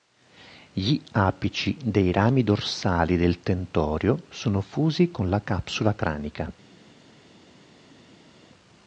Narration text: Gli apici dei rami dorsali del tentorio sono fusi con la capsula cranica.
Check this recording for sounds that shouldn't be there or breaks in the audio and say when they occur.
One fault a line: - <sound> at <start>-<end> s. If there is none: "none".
none